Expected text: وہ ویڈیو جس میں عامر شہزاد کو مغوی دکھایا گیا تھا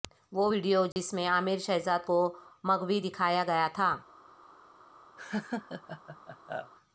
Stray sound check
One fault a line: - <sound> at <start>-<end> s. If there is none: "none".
- dropout at 0.9-1.0 s
- laugh at 5.2-6.7 s